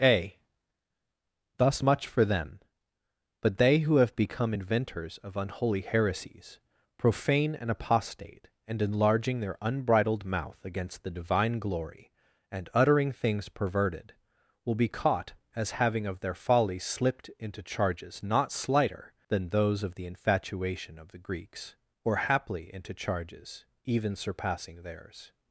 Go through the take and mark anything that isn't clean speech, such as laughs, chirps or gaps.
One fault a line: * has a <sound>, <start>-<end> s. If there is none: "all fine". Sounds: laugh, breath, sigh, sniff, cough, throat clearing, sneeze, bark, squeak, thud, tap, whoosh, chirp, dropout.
all fine